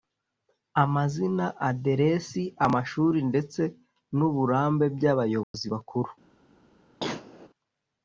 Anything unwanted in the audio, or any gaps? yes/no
yes